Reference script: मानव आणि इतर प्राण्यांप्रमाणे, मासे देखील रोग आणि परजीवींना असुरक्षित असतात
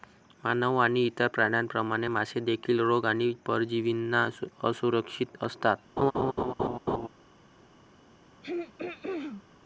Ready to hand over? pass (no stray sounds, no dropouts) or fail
fail